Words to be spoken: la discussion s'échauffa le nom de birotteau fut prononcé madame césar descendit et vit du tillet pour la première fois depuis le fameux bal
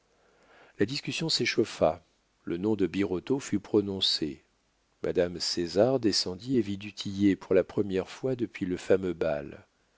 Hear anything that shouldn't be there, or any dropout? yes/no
no